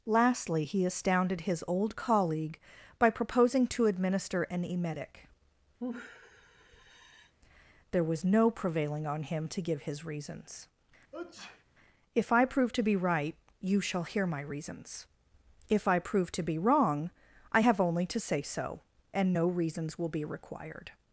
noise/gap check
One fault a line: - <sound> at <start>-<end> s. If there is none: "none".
- sigh at 5.8-7.3 s
- sneeze at 11.1-11.6 s